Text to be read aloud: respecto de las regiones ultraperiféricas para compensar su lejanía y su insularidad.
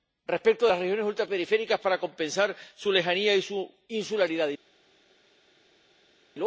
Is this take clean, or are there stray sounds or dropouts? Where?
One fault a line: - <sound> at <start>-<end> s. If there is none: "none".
none